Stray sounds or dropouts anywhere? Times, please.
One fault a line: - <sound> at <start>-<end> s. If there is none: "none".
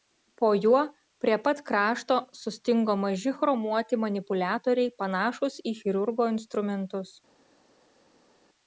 none